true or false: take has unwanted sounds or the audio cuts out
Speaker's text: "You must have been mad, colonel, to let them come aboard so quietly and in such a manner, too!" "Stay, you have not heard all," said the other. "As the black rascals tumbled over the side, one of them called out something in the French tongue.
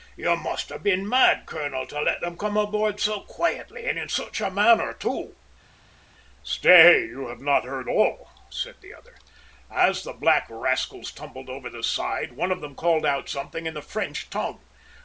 false